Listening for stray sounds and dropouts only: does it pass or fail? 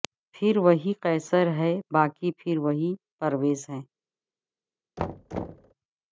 fail